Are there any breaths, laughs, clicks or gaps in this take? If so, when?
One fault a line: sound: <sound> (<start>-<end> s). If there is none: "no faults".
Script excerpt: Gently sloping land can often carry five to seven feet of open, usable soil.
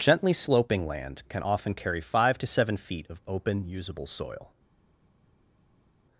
no faults